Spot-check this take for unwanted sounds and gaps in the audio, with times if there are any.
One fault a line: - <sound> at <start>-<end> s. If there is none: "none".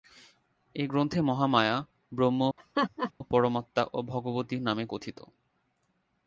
- laugh at 2.6-3.1 s